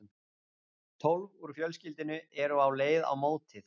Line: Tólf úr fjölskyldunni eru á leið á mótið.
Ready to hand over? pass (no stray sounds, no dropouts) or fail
pass